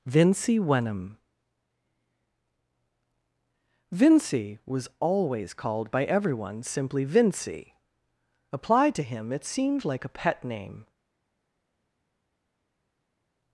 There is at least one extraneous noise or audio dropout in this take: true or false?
false